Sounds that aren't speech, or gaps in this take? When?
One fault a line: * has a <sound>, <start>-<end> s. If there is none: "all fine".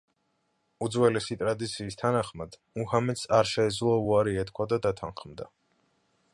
all fine